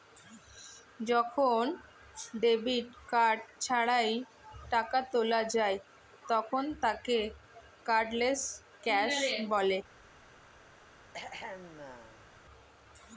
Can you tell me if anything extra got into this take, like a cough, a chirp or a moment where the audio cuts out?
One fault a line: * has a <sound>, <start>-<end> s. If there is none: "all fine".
* has a throat clearing, 11.1-12.3 s